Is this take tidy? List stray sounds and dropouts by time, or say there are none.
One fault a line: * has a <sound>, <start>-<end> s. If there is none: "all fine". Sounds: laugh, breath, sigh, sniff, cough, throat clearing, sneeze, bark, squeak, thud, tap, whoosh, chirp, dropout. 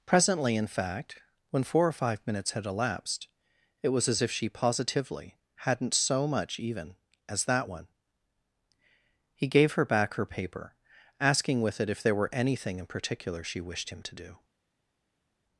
all fine